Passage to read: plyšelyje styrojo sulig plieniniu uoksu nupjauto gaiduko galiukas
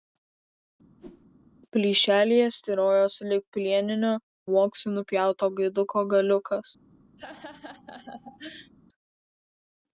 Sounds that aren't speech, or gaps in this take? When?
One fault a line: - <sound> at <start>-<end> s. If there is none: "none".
- whoosh at 1.0-1.3 s
- laugh at 7.2-8.7 s